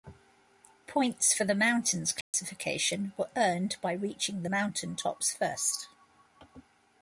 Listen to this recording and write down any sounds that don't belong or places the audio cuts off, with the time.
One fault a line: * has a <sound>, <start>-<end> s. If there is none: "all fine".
* has a dropout, 2.2-2.3 s